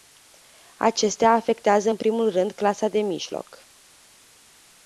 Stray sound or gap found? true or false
false